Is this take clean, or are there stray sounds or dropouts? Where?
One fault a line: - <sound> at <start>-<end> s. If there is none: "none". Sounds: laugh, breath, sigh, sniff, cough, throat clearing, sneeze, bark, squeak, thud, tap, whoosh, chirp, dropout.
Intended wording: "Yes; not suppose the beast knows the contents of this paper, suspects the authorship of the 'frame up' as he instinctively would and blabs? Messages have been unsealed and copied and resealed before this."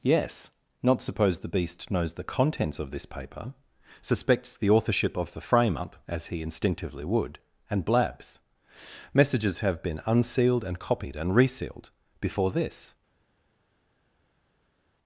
none